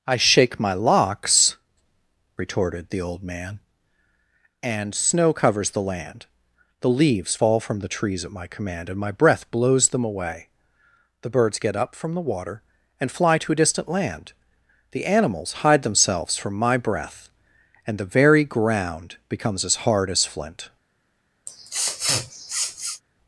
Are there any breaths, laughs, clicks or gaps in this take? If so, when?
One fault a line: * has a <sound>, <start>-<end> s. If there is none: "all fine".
* has a sniff, 21.5-23.0 s